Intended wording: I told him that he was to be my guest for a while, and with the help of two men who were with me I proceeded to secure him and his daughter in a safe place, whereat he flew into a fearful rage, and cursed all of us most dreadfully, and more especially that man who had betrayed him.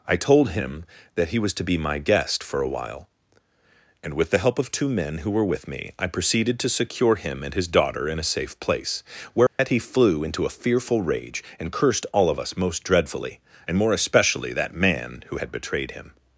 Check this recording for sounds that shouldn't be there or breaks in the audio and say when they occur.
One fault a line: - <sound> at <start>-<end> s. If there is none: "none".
- dropout at 9.5-9.6 s